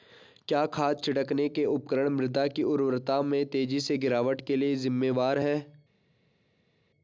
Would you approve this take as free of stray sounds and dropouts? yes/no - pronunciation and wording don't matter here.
yes